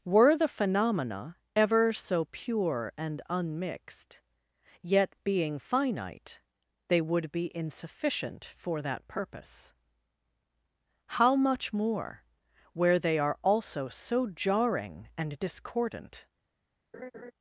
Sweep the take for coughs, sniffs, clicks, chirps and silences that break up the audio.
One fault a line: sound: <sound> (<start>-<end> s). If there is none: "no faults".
sound: laugh (16.9-17.3 s)